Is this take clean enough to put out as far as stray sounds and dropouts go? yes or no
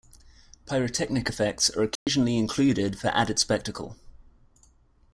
no